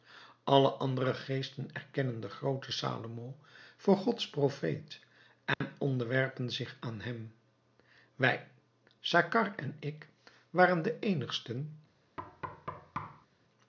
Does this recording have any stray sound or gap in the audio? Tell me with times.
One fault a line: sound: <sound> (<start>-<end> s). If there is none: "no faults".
sound: dropout (5.5-5.6 s)
sound: thud (12.2-13.3 s)